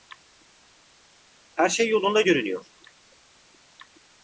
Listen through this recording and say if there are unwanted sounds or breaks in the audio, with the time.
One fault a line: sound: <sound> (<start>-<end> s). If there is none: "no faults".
no faults